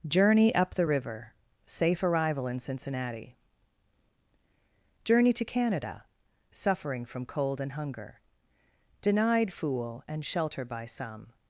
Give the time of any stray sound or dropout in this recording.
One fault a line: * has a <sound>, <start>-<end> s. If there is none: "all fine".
all fine